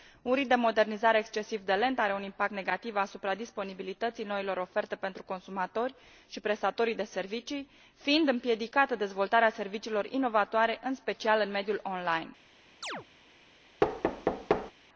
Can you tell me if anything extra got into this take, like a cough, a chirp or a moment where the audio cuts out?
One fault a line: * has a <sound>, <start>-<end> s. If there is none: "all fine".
* has a chirp, 12.8-13.1 s
* has a thud, 13.8-14.7 s